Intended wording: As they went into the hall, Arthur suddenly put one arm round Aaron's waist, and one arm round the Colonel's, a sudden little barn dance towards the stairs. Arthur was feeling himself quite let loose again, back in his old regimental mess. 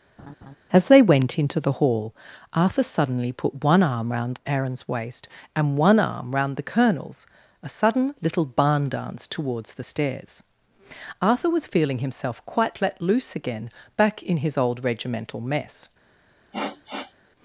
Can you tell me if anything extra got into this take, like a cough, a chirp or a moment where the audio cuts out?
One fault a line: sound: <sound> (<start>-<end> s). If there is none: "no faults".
sound: laugh (0.2-0.6 s)
sound: sniff (16.5-17.1 s)